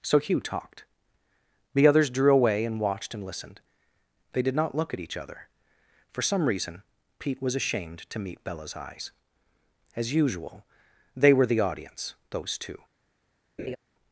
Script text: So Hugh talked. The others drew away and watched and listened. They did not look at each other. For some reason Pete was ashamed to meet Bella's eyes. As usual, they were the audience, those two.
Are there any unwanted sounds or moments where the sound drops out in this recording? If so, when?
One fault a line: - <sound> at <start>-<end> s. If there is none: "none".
- laugh at 13.6-13.8 s